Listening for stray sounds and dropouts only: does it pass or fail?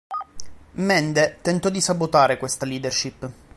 pass